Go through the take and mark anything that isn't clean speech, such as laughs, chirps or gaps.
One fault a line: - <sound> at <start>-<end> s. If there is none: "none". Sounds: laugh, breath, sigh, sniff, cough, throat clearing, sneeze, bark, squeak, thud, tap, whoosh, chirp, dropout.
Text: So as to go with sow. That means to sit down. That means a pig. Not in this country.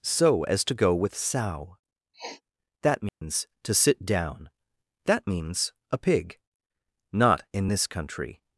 - sniff at 2.1-2.4 s
- dropout at 3.1-3.2 s